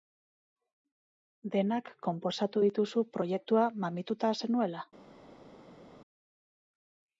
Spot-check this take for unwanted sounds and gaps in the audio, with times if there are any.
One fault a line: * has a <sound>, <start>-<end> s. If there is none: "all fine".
all fine